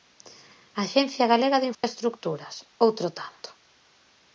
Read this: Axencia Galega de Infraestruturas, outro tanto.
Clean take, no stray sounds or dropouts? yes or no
no